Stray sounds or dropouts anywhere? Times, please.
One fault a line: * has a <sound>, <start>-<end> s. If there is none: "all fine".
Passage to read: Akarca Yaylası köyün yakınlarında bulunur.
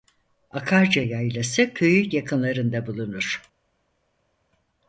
all fine